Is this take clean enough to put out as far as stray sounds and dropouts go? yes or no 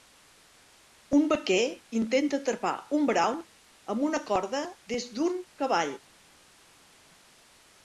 yes